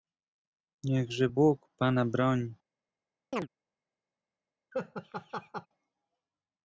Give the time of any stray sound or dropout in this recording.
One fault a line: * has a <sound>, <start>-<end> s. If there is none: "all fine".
* has a chirp, 3.3-3.5 s
* has a laugh, 4.7-5.7 s